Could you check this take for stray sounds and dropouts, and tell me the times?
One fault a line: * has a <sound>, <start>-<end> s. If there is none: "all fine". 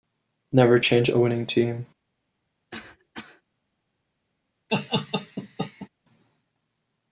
* has a cough, 2.7-3.4 s
* has a laugh, 4.7-5.9 s